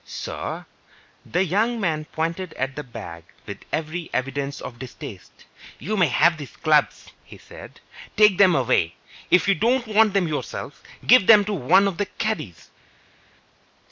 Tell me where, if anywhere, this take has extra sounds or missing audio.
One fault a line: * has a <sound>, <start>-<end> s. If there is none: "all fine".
all fine